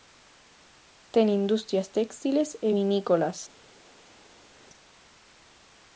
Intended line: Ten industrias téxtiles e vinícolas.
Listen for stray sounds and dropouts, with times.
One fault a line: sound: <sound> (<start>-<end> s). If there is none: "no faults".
no faults